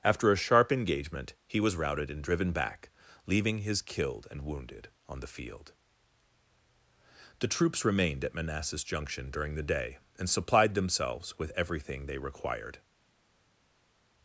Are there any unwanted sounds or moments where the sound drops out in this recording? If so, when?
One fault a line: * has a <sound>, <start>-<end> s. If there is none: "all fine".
all fine